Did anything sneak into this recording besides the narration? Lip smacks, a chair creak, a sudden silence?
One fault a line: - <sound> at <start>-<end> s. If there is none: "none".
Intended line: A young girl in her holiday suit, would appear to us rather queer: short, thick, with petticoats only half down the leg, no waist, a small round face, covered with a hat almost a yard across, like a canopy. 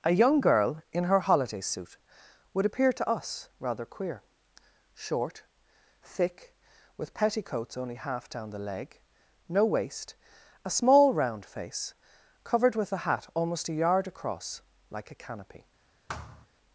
- thud at 16.1-16.5 s